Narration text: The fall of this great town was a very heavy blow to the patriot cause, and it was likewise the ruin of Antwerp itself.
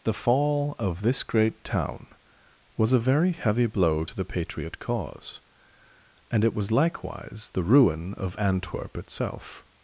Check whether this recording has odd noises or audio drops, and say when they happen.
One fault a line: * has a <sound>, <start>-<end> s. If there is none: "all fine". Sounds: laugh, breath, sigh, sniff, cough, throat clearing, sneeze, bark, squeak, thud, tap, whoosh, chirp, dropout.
all fine